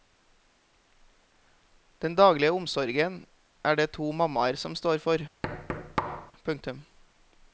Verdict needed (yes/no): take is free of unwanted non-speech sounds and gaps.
no